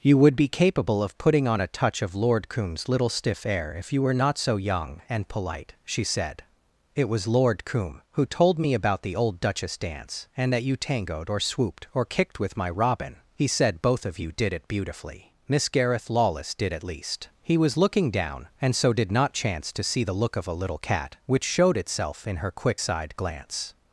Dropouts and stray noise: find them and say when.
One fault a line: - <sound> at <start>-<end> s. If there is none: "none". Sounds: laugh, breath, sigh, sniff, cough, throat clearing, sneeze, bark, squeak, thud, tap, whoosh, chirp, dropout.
none